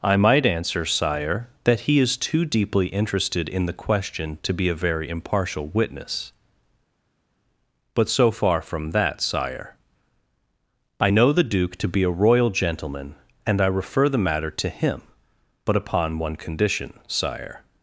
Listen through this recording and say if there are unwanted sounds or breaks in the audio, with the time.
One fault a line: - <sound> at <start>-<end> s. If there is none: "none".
none